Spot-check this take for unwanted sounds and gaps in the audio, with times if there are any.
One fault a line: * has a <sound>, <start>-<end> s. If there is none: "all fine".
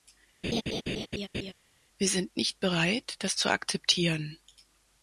* has a laugh, 0.4-1.5 s